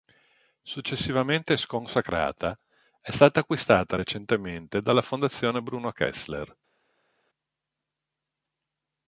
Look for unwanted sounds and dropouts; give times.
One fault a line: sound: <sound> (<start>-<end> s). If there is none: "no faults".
no faults